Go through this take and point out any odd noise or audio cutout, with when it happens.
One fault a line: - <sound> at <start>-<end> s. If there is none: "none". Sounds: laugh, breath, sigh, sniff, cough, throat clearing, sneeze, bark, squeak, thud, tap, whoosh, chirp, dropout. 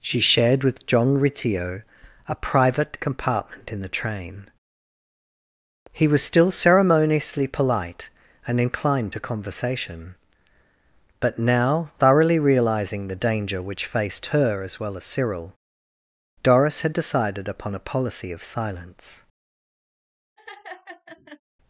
- laugh at 20.4-21.4 s